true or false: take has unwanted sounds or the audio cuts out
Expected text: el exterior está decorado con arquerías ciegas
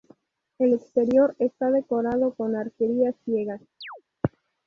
true